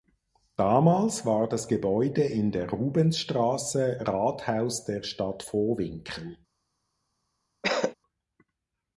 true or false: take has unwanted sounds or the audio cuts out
true